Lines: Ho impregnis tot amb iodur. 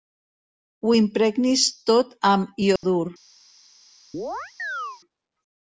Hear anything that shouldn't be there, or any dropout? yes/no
yes